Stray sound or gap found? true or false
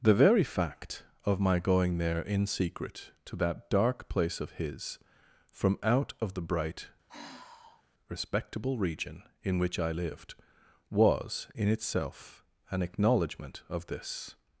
true